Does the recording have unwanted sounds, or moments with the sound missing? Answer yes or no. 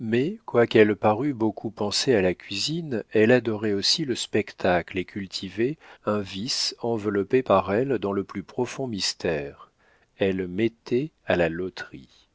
no